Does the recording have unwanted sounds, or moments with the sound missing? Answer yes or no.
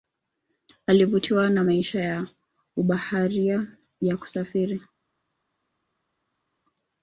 no